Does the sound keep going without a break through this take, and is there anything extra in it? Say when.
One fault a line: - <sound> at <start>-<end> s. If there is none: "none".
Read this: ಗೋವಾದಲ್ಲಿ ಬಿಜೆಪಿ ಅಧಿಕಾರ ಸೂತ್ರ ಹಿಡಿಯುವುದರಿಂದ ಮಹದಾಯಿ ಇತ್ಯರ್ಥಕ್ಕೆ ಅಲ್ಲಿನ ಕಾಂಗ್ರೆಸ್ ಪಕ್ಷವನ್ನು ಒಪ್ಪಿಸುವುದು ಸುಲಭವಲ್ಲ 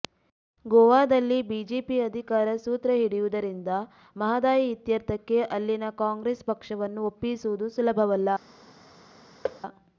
- thud at 9.4-9.6 s